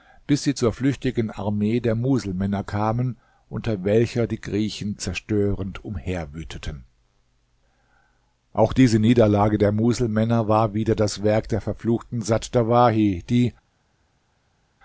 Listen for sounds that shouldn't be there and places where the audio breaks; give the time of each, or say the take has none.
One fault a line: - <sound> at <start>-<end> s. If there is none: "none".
none